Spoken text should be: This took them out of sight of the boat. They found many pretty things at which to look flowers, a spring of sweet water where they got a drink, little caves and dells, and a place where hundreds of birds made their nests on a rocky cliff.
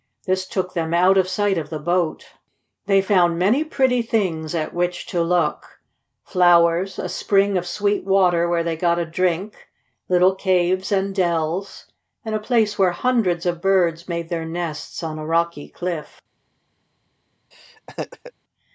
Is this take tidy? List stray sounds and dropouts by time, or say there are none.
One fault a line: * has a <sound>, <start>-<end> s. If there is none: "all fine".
* has a laugh, 17.5-18.3 s